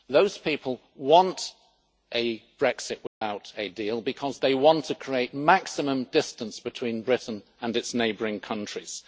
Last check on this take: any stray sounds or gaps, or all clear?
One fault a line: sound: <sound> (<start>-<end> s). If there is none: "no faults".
sound: dropout (3.1-3.2 s)